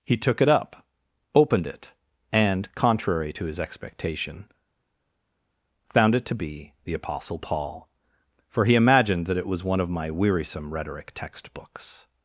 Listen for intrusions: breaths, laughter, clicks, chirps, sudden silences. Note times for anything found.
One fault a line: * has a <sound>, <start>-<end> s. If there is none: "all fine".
all fine